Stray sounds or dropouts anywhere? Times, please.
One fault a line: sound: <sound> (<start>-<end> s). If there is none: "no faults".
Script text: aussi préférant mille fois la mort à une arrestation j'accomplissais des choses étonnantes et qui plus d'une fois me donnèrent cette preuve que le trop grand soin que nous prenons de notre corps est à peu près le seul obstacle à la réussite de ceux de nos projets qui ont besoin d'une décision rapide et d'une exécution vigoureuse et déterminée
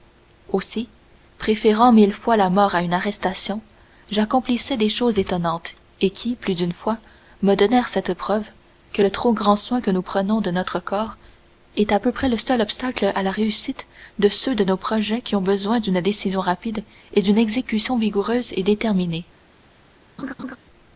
sound: laugh (20.2-20.6 s)